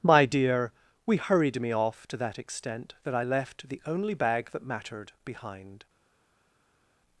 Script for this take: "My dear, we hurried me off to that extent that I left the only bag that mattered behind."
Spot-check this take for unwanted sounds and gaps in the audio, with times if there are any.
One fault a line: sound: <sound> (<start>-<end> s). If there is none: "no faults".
no faults